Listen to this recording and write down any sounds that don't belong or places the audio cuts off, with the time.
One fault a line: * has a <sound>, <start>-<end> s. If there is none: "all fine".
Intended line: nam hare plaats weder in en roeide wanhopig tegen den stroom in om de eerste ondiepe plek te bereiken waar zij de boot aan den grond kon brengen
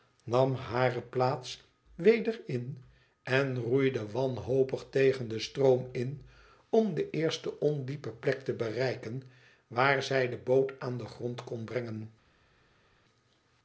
all fine